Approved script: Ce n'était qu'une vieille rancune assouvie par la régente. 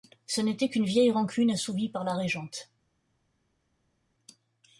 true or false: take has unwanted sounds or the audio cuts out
false